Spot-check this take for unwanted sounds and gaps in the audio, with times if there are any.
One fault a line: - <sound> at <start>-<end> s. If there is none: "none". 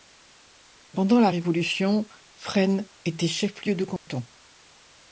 - dropout at 4.0-4.1 s